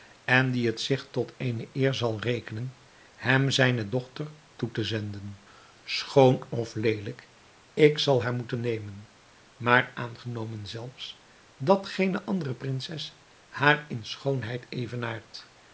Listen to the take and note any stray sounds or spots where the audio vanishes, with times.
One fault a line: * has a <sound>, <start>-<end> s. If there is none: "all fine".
all fine